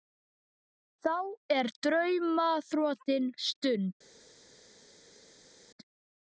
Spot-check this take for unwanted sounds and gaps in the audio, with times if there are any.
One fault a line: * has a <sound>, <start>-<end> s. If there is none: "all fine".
all fine